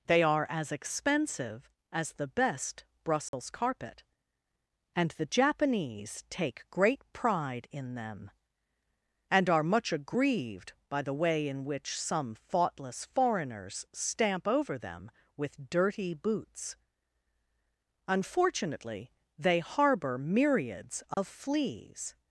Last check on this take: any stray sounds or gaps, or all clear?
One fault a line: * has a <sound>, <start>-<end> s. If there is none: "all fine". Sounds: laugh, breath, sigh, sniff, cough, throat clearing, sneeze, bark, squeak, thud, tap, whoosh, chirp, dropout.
* has a dropout, 3.3-3.3 s
* has a dropout, 21.1-21.2 s